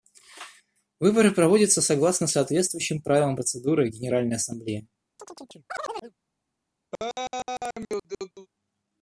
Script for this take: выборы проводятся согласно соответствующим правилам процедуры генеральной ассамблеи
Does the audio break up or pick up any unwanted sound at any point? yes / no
yes